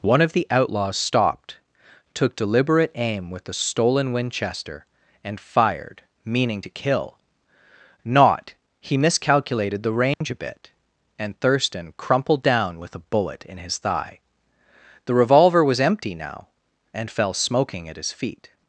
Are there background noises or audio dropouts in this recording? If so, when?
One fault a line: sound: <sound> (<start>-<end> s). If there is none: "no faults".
sound: dropout (10.1-10.2 s)